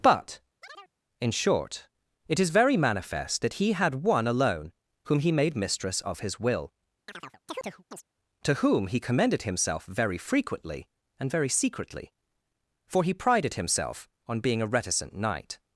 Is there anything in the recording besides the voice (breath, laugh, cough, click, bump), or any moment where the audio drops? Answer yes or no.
yes